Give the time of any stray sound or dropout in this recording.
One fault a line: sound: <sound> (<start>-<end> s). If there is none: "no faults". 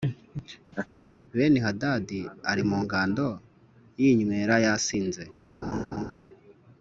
sound: laugh (0.7-0.9 s)
sound: laugh (5.6-6.1 s)